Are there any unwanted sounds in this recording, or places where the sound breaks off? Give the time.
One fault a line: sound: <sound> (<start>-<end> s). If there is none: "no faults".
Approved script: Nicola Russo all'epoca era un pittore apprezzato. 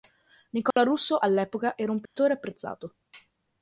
sound: dropout (0.7-0.8 s)
sound: dropout (2.1-2.2 s)